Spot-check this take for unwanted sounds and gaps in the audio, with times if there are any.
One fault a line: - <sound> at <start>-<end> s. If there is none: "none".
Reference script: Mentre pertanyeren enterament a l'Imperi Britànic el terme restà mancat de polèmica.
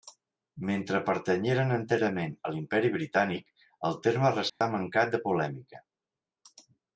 - dropout at 4.5-4.6 s